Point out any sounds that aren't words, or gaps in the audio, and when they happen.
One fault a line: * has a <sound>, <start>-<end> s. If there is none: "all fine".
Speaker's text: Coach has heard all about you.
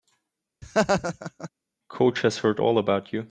* has a laugh, 0.6-1.5 s